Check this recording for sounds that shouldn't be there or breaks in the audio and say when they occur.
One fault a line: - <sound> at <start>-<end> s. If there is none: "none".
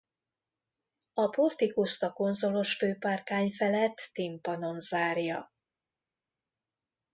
none